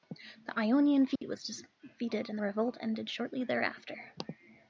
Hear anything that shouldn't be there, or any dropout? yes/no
yes